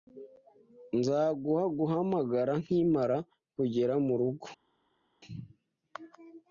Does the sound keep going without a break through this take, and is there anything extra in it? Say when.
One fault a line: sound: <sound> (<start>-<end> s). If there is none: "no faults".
no faults